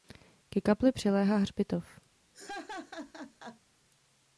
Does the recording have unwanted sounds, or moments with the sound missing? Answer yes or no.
yes